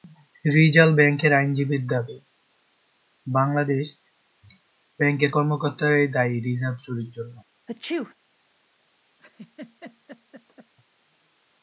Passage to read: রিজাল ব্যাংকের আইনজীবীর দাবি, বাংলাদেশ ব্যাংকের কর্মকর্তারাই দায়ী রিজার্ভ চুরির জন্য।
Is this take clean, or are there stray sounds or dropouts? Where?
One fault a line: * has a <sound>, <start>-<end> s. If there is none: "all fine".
* has a sneeze, 7.7-8.1 s
* has a laugh, 9.2-10.7 s